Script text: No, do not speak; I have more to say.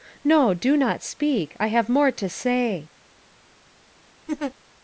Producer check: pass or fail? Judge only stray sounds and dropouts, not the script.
fail